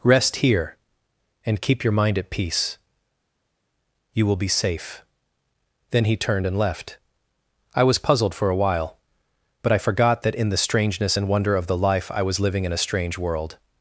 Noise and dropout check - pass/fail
pass